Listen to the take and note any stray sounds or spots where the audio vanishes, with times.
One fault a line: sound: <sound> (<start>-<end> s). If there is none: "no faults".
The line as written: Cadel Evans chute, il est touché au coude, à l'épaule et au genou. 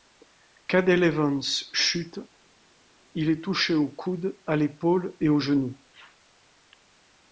no faults